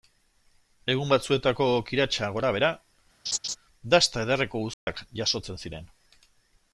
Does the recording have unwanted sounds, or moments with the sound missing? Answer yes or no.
yes